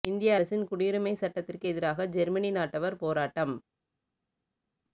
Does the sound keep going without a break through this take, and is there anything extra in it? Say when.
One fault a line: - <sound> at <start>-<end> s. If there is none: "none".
none